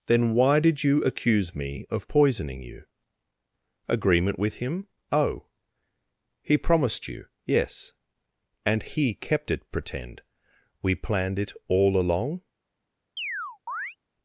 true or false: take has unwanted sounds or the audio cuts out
true